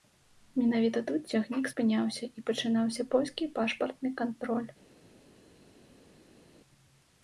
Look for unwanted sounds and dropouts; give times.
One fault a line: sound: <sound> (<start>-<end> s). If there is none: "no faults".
no faults